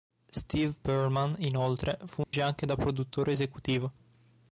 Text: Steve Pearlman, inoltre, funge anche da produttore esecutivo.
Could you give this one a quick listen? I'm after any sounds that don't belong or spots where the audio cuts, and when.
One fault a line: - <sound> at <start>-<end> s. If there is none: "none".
- dropout at 2.2-2.3 s